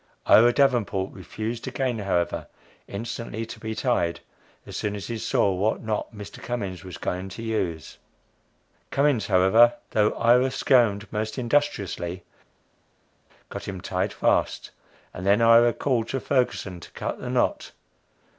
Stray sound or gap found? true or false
false